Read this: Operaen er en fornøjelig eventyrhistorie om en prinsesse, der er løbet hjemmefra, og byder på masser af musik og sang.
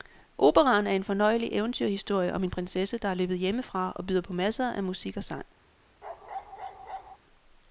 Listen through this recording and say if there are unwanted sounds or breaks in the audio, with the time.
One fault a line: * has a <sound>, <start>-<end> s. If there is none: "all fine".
* has a bark, 6.0-7.2 s